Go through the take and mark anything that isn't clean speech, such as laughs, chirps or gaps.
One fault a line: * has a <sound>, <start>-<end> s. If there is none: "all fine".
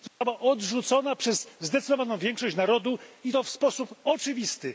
* has a dropout, 0.1-0.2 s